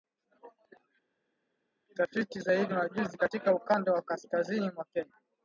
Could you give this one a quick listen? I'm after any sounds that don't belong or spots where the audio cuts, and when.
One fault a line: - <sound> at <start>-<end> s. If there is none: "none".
none